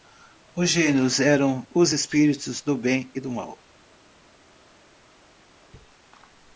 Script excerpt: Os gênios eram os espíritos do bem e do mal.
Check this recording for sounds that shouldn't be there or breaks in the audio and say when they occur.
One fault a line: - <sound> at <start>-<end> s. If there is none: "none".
none